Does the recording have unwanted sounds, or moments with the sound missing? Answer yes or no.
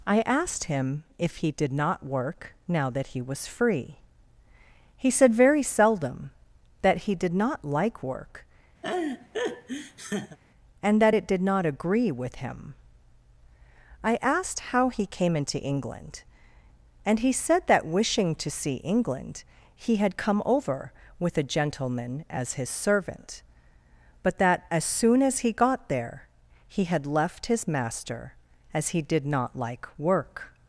yes